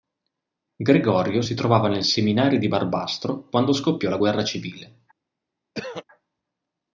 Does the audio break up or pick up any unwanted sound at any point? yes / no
yes